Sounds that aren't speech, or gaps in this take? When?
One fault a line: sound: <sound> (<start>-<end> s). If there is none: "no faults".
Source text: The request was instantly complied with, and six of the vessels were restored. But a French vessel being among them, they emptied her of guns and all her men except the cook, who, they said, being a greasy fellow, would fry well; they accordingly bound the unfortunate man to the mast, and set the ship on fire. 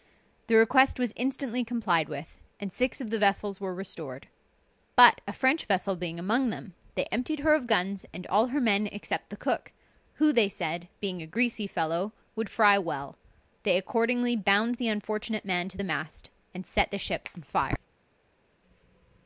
no faults